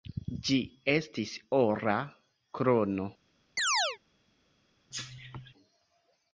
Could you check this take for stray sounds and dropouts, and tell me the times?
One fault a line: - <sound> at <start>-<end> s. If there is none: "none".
- chirp at 3.6-4.0 s
- cough at 4.9-5.5 s